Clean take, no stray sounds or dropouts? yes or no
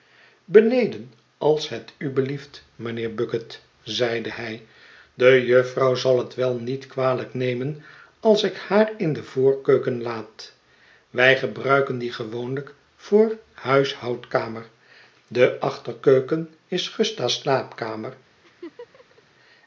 no